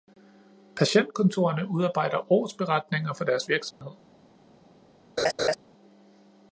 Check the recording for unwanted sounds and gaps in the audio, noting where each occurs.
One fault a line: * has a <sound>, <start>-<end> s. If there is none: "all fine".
* has a dropout, 3.7-3.8 s
* has a laugh, 5.2-5.6 s